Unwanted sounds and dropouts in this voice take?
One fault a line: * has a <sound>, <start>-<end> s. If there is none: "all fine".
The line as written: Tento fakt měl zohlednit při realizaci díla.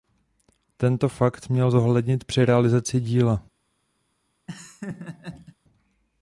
* has a laugh, 4.5-5.6 s